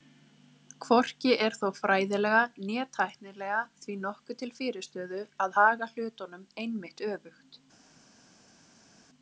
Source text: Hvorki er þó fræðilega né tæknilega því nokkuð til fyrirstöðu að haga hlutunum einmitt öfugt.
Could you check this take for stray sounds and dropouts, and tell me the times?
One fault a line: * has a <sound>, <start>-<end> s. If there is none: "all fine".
all fine